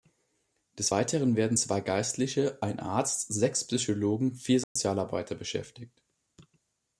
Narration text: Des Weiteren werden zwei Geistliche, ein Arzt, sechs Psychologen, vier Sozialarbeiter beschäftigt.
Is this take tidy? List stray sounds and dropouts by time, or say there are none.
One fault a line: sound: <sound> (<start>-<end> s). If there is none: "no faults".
sound: dropout (4.6-4.8 s)